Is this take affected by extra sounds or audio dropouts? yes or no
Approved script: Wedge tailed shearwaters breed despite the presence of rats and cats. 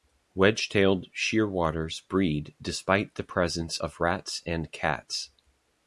no